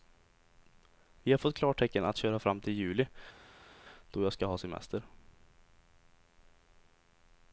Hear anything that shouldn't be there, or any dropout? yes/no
no